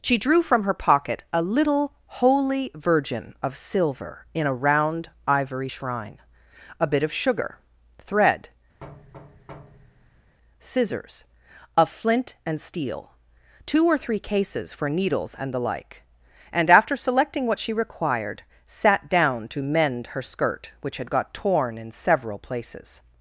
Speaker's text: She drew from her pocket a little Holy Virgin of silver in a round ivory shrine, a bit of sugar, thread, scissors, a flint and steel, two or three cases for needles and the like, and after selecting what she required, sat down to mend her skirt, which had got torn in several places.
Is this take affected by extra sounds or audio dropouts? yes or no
yes